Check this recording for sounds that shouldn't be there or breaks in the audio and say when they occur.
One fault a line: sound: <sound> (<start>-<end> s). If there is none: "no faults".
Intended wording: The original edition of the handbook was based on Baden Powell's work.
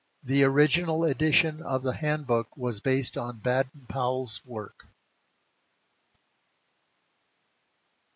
no faults